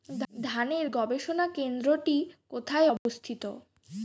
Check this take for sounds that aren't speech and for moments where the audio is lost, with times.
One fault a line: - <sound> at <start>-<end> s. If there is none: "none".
- dropout at 3.0-3.1 s